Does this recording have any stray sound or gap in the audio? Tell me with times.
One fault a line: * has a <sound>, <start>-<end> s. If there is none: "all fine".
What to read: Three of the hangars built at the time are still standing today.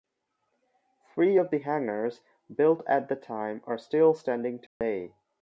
* has a dropout, 4.7-4.8 s